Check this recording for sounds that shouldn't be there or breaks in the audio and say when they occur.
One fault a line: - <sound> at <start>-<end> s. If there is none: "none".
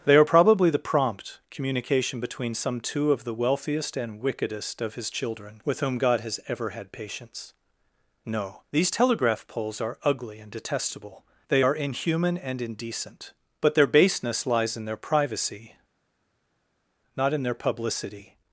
none